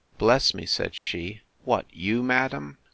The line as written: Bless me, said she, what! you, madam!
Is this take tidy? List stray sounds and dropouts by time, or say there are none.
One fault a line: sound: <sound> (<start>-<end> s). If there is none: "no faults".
sound: dropout (1.0-1.1 s)